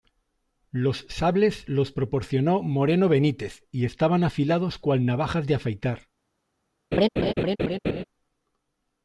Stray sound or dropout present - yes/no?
yes